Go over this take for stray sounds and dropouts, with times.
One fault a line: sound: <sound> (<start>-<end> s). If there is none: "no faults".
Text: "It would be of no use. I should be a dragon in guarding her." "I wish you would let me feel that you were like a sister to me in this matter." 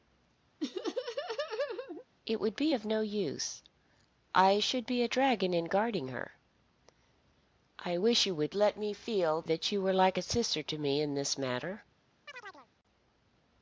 sound: laugh (0.6-2.0 s)
sound: chirp (12.3-12.7 s)